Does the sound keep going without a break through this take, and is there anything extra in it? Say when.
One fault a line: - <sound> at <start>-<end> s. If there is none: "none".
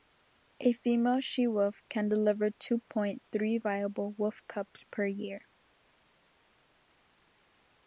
none